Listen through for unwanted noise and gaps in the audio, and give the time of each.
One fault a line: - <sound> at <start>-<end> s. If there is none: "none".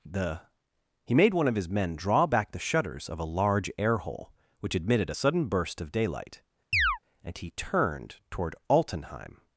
- chirp at 6.7-7.0 s